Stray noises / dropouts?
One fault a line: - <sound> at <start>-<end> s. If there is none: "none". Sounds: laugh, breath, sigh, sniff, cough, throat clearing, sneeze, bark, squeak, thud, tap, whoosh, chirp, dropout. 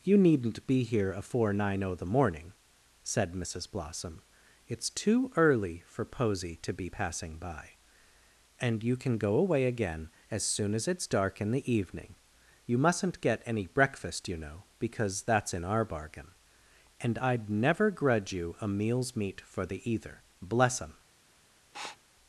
- sniff at 21.7-22.0 s